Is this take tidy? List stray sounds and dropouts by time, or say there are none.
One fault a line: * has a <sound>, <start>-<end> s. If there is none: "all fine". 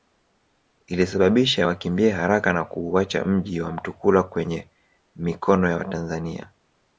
all fine